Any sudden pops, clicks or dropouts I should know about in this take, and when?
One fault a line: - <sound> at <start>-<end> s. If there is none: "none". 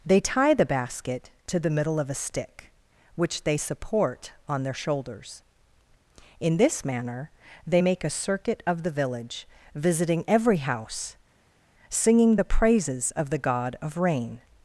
none